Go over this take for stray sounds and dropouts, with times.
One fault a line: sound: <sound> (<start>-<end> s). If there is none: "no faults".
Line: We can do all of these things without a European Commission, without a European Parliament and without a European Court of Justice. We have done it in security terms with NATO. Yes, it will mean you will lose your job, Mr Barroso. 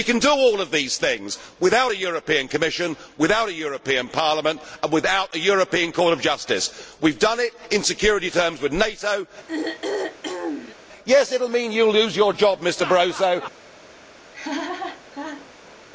sound: throat clearing (9.5-10.8 s)
sound: laugh (14.3-15.8 s)